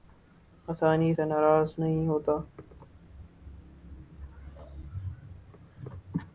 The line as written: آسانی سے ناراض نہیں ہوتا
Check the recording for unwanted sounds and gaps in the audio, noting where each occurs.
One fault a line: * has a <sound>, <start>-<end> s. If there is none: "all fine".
all fine